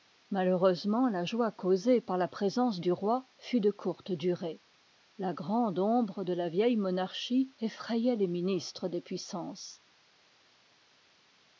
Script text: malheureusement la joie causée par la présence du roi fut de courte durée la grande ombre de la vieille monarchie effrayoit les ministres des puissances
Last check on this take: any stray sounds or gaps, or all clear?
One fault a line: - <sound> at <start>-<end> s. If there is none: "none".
none